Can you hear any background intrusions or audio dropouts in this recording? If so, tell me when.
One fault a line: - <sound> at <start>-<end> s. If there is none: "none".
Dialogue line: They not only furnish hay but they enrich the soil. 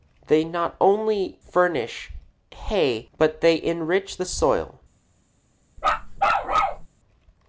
- bark at 5.8-6.9 s